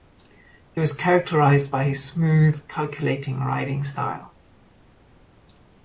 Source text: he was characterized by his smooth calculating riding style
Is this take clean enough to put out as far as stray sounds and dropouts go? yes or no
yes